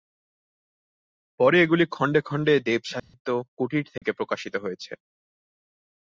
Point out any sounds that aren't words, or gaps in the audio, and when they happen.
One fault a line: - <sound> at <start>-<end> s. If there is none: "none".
- dropout at 3.0-3.1 s
- dropout at 4.0-4.0 s